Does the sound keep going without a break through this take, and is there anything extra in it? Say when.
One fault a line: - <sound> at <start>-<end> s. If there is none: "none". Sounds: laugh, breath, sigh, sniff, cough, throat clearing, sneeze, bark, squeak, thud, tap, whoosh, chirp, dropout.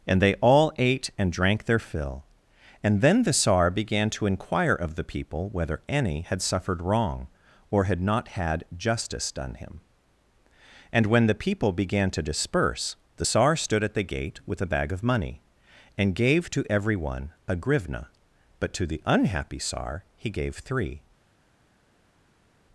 none